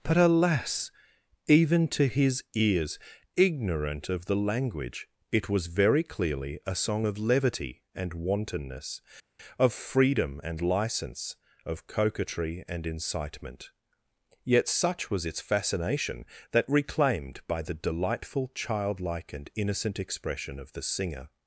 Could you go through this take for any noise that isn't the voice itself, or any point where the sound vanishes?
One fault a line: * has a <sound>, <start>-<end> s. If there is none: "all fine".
all fine